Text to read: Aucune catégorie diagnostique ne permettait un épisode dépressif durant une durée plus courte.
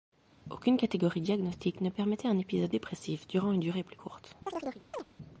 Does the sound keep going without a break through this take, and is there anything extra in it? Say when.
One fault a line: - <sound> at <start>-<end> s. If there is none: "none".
- chirp at 4.5-5.0 s